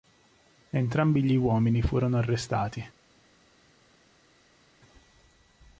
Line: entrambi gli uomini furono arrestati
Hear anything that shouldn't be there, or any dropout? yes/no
no